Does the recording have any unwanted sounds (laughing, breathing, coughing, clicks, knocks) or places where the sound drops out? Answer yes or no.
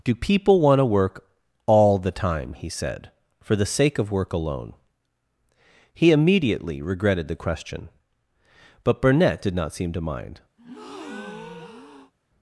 yes